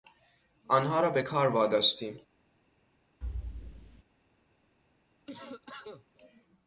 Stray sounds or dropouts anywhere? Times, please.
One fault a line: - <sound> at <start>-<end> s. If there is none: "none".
- thud at 3.2-4.0 s
- cough at 5.3-6.1 s